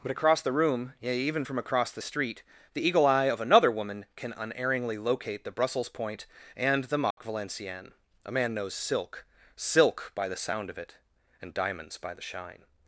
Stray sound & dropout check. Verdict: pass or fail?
fail